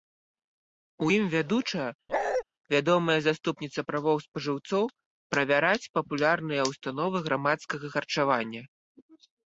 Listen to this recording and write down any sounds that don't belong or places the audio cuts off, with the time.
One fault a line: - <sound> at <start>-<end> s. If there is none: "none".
- bark at 2.1-2.4 s